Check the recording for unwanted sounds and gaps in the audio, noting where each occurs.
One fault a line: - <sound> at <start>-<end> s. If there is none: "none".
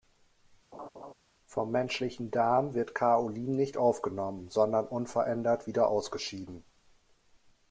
- laugh at 0.7-1.1 s